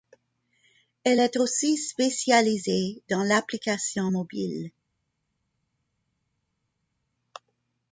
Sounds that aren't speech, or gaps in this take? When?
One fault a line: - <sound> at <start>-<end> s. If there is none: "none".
none